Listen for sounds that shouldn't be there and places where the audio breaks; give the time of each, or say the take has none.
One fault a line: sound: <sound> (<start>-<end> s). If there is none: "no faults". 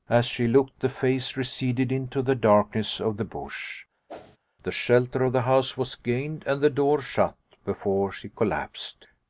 sound: whoosh (4.1-4.4 s)